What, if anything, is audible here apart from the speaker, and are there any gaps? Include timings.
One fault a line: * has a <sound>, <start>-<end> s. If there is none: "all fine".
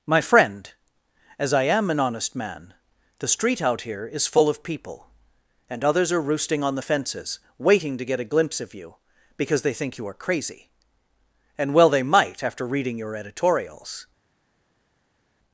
all fine